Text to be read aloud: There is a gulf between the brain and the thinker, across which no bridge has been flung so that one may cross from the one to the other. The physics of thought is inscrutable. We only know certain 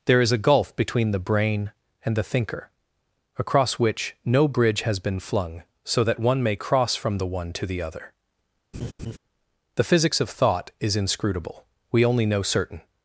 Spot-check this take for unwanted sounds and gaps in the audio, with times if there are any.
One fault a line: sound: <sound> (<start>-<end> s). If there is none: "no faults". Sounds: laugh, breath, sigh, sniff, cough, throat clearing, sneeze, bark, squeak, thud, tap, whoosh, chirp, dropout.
sound: laugh (8.7-9.2 s)